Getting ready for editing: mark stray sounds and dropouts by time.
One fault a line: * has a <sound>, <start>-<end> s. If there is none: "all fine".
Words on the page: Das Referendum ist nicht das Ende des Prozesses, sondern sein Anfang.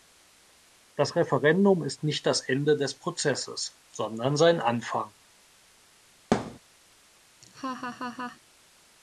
* has a thud, 6.3-6.6 s
* has a laugh, 7.4-8.4 s